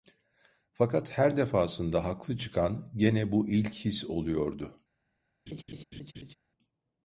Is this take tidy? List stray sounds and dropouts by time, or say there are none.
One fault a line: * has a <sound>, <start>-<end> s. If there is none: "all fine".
* has a laugh, 5.5-6.3 s